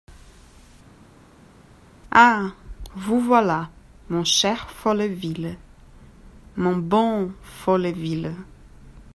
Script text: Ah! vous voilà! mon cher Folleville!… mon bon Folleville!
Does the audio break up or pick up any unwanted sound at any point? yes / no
no